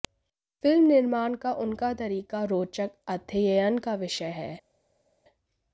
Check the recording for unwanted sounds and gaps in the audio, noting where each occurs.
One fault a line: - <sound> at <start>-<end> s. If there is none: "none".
none